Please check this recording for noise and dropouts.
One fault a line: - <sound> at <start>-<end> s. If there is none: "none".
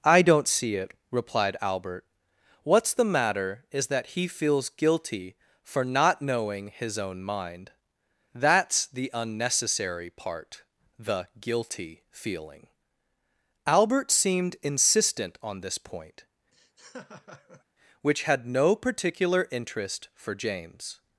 - laugh at 16.5-17.6 s